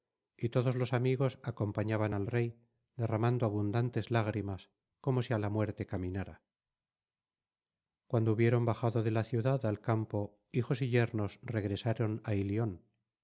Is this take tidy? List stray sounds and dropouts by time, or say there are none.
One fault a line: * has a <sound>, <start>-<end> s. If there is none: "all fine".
all fine